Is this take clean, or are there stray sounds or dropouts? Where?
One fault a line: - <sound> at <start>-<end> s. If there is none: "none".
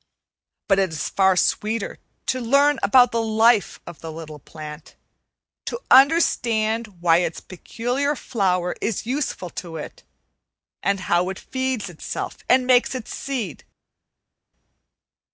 none